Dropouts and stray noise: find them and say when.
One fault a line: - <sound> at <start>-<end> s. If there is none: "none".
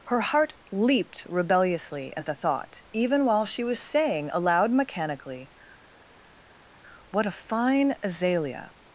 none